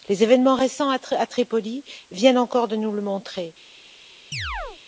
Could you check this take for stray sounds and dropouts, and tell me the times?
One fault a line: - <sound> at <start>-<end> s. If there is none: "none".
- chirp at 4.3-4.8 s